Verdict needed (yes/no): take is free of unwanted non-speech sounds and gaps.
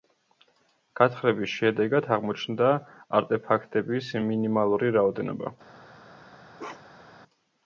no